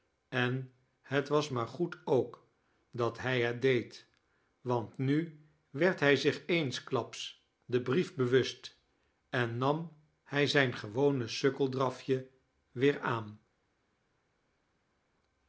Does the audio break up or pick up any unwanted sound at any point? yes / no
no